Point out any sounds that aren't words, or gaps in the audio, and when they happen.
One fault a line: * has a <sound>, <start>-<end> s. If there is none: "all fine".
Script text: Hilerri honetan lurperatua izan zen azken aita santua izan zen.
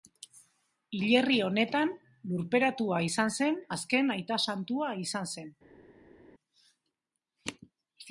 all fine